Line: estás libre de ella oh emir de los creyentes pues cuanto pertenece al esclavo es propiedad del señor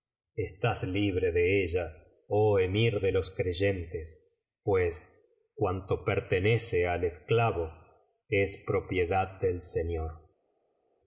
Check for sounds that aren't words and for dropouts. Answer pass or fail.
pass